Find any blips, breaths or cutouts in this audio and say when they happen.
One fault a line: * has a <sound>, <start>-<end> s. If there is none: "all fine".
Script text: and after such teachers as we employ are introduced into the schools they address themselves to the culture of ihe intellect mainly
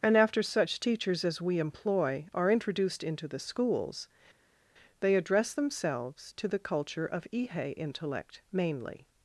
all fine